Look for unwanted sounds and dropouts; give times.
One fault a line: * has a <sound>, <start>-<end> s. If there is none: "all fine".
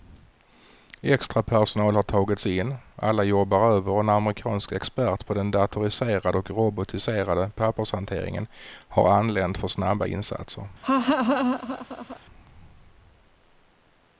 * has a laugh, 10.8-12.2 s